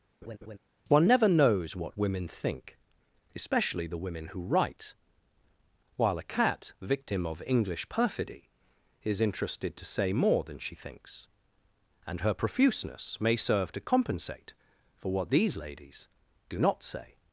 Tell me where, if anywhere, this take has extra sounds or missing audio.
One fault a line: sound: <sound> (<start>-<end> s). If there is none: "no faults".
sound: laugh (0.2-0.6 s)